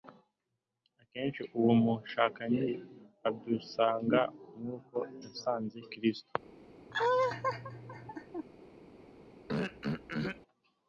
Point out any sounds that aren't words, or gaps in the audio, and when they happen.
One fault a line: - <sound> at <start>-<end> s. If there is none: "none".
- laugh at 6.9-8.5 s
- throat clearing at 9.5-10.4 s